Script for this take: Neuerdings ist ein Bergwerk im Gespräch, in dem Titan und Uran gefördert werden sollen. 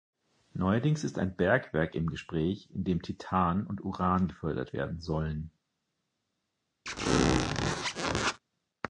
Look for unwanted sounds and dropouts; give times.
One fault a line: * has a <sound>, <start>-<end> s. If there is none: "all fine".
* has a squeak, 6.9-8.4 s